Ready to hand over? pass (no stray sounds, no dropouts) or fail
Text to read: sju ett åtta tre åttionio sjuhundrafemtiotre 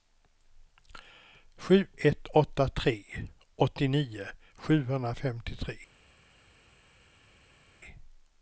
pass